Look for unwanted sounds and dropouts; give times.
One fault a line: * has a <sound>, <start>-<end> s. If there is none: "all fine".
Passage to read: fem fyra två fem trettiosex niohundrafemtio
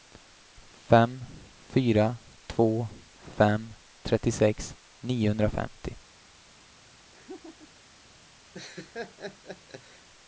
* has a laugh, 7.1-7.9 s
* has a laugh, 8.5-10.1 s